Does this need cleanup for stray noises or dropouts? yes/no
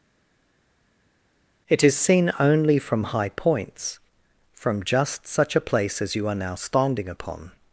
no